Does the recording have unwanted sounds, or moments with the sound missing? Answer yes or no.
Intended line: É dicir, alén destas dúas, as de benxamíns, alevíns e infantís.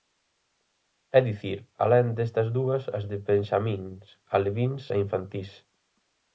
no